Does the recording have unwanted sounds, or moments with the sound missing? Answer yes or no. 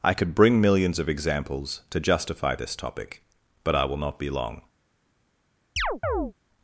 yes